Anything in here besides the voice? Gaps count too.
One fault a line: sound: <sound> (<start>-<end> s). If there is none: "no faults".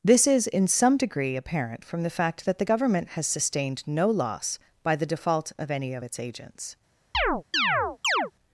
sound: chirp (7.1-8.3 s)